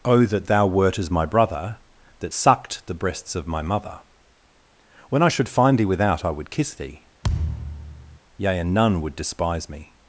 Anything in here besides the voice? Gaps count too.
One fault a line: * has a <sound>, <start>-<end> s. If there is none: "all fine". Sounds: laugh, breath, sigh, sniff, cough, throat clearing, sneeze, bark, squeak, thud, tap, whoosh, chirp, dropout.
* has a thud, 7.2-8.2 s